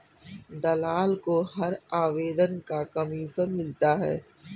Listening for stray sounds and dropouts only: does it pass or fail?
pass